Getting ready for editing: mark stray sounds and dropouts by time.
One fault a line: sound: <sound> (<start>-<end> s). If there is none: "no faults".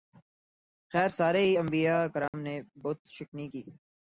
sound: dropout (2.3-2.3 s)